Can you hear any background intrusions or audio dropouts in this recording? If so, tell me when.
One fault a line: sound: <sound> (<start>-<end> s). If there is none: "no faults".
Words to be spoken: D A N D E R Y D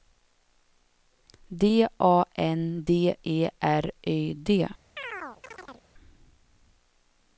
sound: chirp (5.0-5.9 s)